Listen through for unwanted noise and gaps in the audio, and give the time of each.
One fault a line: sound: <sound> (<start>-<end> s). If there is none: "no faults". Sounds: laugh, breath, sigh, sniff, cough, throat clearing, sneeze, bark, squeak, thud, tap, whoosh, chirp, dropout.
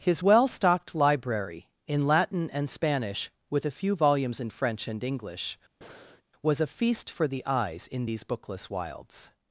sound: breath (5.8-6.2 s)